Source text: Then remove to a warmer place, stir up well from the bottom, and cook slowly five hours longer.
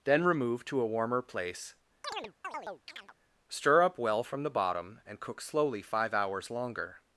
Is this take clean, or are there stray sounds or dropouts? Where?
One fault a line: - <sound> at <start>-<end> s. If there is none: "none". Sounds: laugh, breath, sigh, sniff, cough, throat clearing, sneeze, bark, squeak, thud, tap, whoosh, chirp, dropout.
- chirp at 2.0-3.2 s